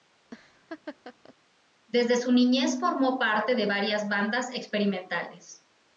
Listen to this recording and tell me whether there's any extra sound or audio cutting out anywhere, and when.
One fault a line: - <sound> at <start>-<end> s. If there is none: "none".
- laugh at 0.3-1.4 s